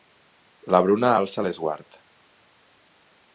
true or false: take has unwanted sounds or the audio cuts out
false